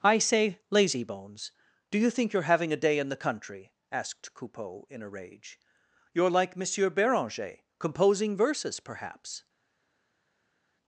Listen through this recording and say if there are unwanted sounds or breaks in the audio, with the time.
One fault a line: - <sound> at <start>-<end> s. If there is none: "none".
none